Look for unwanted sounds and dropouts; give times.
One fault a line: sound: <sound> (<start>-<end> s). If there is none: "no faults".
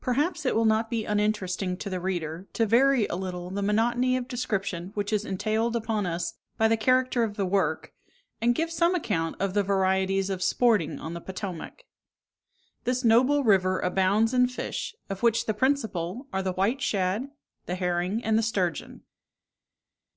no faults